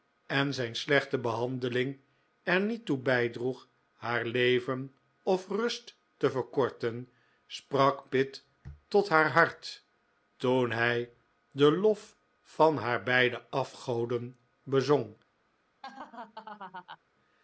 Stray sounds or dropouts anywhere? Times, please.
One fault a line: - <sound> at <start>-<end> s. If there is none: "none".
- laugh at 15.8-17.0 s